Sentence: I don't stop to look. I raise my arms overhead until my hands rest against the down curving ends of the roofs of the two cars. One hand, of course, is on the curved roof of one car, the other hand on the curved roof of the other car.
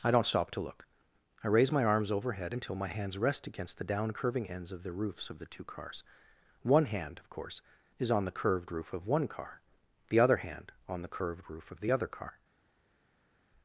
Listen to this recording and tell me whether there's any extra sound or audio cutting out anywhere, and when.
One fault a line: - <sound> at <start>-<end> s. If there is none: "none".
none